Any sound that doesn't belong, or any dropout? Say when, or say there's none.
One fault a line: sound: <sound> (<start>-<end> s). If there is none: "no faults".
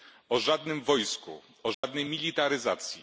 sound: dropout (1.7-1.8 s)